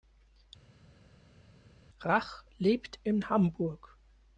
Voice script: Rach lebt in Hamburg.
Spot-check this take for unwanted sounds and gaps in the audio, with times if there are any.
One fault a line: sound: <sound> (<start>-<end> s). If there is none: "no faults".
no faults